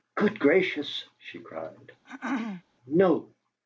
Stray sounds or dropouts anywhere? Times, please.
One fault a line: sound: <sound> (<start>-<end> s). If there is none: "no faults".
sound: throat clearing (2.0-2.6 s)